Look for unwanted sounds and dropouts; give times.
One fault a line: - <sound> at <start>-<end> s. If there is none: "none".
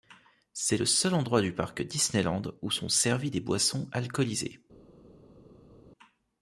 none